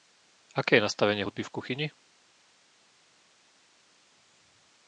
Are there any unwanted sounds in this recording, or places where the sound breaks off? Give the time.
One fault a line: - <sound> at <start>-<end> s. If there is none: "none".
none